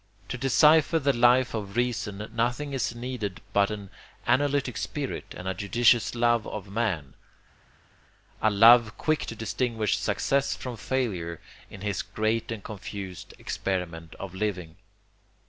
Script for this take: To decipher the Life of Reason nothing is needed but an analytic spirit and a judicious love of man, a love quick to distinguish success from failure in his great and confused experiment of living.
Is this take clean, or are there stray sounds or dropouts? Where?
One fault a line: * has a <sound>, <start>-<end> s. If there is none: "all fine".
all fine